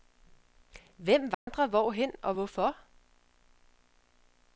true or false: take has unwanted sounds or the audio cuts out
true